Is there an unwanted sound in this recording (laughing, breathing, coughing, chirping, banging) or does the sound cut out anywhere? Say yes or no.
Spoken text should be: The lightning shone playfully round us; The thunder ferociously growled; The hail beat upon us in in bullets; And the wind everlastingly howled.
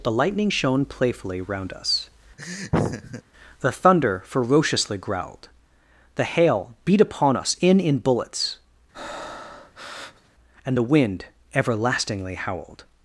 yes